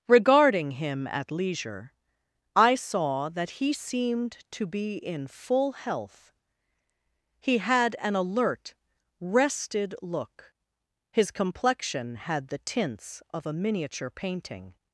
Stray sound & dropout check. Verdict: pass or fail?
pass